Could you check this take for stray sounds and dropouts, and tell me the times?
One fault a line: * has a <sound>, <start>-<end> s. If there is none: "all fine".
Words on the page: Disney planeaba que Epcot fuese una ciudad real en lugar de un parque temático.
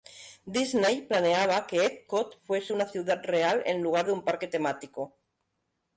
all fine